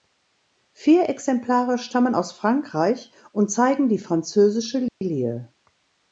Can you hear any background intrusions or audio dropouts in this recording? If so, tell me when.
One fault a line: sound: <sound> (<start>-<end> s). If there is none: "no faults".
sound: dropout (4.9-5.0 s)